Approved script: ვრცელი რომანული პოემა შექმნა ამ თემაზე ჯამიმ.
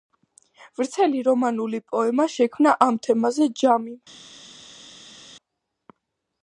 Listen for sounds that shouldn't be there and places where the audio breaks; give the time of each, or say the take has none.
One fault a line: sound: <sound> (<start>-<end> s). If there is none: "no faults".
no faults